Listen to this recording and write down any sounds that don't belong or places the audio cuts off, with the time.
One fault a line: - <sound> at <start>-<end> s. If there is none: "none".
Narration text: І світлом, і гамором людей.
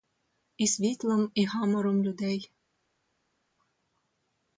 none